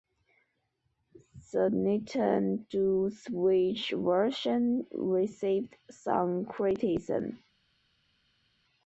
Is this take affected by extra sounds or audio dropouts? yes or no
no